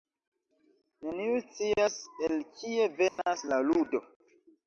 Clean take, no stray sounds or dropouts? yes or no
no